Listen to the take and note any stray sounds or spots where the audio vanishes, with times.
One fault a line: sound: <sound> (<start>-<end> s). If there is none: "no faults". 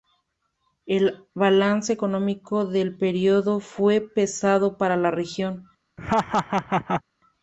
sound: laugh (6.0-7.0 s)